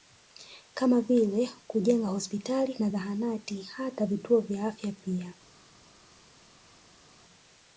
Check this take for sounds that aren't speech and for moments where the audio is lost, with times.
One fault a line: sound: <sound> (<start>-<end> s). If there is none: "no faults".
no faults